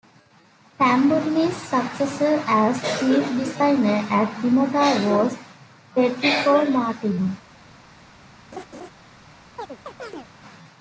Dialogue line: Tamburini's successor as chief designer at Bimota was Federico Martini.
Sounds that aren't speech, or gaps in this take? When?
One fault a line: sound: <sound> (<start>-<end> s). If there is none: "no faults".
sound: laugh (8.5-8.9 s)
sound: chirp (9.6-10.3 s)